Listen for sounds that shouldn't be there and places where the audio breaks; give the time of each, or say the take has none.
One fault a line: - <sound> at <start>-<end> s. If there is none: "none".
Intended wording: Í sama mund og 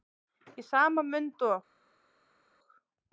none